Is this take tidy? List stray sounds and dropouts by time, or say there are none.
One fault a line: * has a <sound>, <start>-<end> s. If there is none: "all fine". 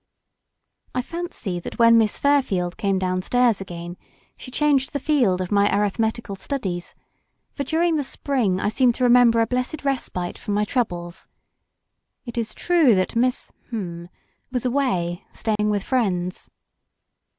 * has a dropout, 15.6-15.6 s